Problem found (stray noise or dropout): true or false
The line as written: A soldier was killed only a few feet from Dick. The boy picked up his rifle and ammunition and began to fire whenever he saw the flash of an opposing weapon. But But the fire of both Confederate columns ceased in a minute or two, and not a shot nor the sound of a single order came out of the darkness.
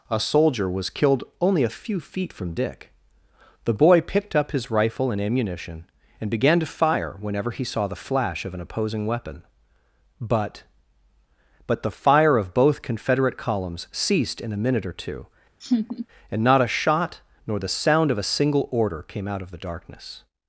true